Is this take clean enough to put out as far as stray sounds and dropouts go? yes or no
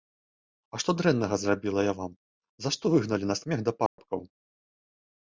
no